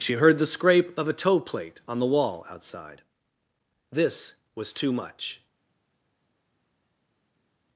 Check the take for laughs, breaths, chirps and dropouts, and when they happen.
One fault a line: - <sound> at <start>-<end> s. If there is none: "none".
none